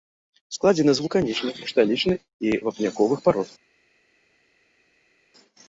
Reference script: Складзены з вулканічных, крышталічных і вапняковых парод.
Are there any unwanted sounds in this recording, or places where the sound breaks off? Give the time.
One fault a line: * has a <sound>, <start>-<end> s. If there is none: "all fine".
all fine